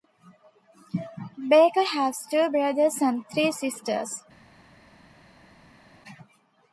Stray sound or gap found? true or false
false